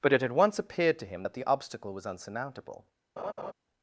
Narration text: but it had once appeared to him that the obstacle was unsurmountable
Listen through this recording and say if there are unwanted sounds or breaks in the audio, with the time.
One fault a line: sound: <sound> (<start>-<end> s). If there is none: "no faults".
sound: laugh (3.2-3.5 s)